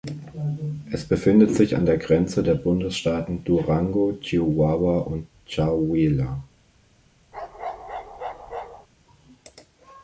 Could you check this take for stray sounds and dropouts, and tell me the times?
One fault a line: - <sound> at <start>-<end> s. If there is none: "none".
- bark at 7.3-8.9 s